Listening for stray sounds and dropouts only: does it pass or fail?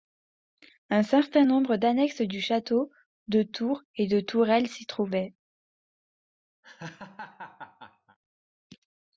fail